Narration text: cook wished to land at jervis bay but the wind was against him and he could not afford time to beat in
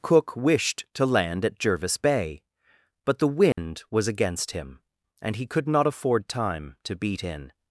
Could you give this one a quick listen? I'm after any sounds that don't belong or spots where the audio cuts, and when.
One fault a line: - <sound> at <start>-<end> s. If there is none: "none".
- dropout at 3.5-3.6 s